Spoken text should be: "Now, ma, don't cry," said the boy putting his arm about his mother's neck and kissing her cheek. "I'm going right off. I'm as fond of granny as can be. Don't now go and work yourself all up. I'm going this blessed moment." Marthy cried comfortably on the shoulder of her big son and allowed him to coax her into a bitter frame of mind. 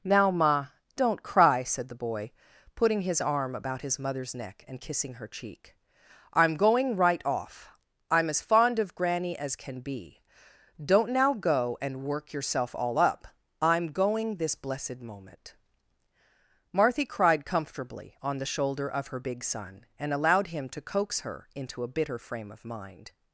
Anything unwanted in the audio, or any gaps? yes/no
no